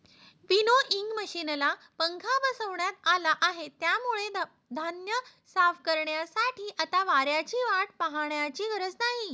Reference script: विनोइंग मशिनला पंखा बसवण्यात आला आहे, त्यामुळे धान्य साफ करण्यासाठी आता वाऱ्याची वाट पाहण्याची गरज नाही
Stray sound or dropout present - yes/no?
no